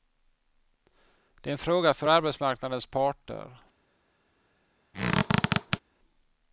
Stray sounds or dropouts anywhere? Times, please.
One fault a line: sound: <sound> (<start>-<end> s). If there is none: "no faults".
sound: squeak (4.9-5.8 s)